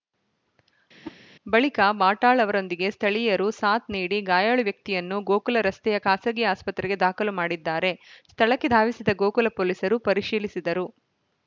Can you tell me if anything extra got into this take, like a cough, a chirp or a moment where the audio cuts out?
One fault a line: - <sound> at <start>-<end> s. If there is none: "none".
- whoosh at 1.0-1.2 s